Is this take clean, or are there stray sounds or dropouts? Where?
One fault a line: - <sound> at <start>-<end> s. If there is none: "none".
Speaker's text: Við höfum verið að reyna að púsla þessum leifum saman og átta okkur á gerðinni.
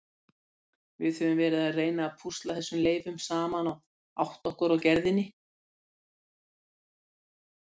none